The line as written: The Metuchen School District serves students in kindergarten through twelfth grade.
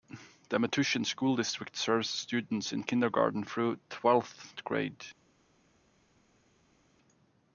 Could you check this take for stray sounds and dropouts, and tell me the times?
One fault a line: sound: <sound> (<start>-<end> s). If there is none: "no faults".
no faults